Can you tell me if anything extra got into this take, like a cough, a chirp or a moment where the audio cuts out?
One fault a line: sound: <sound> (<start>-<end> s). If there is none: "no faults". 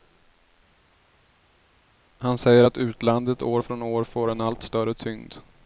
no faults